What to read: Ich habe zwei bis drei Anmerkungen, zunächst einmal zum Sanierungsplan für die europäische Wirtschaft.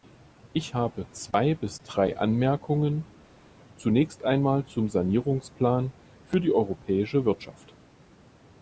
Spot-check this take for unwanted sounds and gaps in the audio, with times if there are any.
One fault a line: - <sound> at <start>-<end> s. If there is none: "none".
none